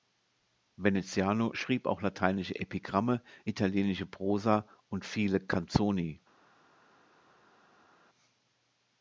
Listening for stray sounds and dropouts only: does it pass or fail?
pass